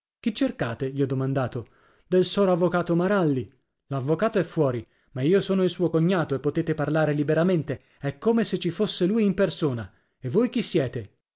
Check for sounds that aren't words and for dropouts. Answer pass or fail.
pass